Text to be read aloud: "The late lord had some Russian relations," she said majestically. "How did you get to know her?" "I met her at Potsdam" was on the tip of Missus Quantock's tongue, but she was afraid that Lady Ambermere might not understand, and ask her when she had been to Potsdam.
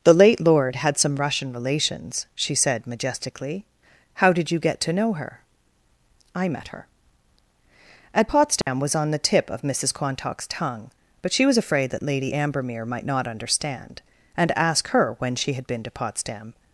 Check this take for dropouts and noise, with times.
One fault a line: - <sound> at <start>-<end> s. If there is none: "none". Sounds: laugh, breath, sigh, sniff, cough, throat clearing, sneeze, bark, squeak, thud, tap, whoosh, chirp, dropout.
- dropout at 8.6-8.7 s